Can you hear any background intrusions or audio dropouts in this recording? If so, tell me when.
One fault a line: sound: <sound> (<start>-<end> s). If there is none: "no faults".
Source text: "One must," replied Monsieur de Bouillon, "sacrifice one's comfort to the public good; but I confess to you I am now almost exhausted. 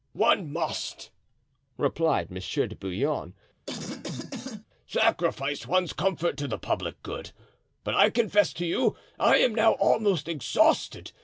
sound: cough (3.7-4.7 s)